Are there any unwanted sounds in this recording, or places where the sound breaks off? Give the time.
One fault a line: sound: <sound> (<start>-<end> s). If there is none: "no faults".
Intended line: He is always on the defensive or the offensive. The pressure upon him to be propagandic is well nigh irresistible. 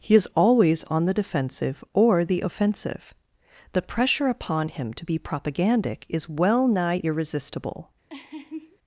sound: laugh (8.1-8.8 s)